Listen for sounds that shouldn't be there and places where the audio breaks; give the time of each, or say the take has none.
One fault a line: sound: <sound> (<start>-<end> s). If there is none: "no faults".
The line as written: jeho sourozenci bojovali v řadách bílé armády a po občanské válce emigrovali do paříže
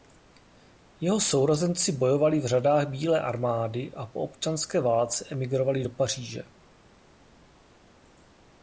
no faults